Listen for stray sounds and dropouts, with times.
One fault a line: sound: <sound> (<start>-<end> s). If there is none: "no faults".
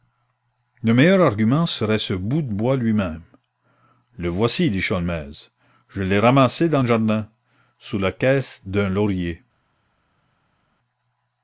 no faults